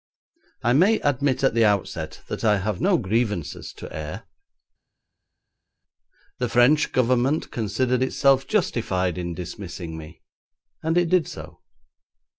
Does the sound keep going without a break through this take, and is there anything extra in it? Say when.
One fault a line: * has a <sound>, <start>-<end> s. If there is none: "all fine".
all fine